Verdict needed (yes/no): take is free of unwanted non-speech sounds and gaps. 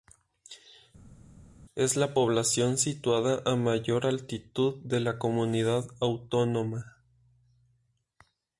yes